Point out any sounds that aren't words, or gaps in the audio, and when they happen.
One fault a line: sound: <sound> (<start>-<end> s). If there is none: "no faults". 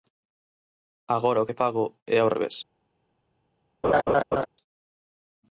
sound: laugh (3.8-4.5 s)